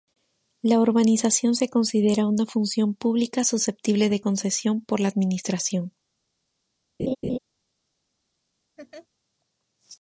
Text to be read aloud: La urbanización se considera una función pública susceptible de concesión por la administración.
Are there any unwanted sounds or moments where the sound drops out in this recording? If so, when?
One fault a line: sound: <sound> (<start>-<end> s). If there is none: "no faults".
sound: laugh (7.0-7.4 s)
sound: laugh (8.8-9.1 s)